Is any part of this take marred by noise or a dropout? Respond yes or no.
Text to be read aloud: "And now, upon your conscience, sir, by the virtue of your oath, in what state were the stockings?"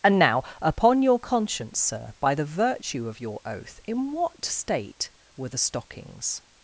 no